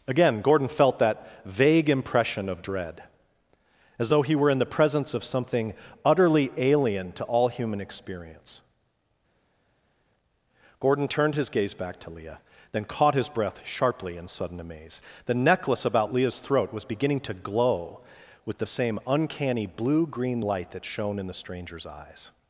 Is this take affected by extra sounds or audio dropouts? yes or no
no